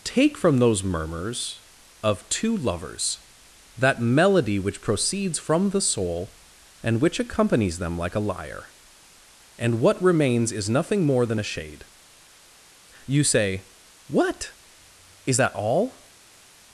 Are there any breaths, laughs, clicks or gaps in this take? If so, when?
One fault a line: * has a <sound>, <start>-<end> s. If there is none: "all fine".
all fine